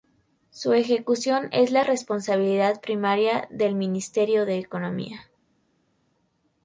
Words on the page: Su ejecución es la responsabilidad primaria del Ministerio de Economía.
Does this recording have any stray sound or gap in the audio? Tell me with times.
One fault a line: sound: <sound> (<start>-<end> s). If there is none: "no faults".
no faults